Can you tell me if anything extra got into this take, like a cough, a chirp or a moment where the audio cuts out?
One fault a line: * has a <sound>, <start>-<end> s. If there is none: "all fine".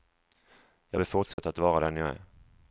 * has a dropout, 1.3-1.4 s